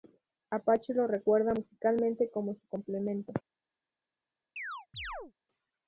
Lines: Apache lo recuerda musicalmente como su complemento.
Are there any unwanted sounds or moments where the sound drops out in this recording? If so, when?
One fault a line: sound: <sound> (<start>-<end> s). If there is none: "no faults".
sound: chirp (4.6-5.3 s)